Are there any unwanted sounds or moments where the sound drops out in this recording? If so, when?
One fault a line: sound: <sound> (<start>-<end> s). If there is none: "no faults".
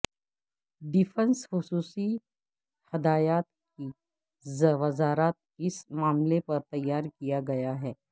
no faults